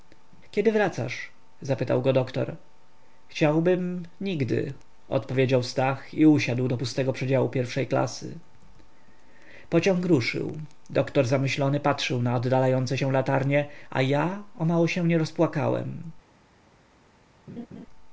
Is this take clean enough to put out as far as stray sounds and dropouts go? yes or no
no